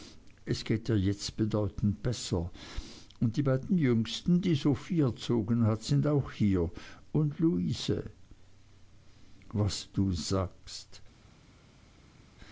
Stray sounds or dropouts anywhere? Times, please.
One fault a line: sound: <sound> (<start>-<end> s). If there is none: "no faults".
no faults